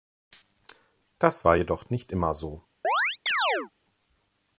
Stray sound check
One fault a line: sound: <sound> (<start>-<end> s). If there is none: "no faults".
sound: chirp (2.8-3.7 s)